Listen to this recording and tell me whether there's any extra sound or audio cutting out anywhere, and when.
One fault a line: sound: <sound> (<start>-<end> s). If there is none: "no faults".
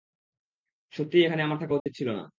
sound: dropout (1.8-1.9 s)